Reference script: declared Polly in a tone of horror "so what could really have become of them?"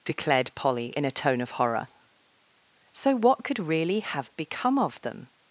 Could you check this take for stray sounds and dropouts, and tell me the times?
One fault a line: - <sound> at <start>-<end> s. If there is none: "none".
none